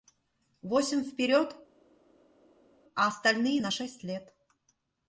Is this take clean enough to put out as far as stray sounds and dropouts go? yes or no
yes